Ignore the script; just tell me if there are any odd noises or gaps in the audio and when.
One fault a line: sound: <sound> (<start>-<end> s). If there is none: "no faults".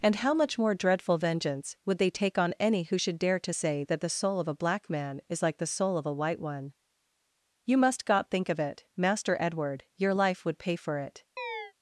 sound: chirp (11.4-11.7 s)